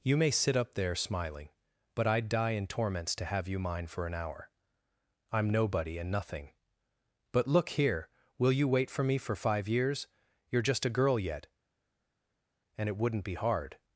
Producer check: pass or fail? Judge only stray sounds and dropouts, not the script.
pass